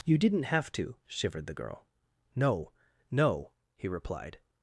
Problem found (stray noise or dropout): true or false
false